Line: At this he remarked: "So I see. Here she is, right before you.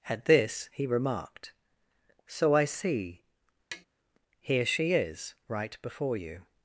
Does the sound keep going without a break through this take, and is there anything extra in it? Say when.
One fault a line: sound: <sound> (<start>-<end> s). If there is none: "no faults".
sound: tap (3.7-3.9 s)